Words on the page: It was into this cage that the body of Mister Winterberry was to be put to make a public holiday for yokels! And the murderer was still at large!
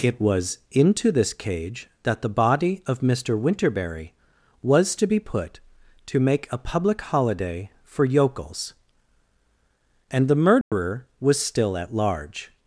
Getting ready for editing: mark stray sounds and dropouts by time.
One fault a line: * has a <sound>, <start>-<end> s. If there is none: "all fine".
* has a dropout, 10.6-10.7 s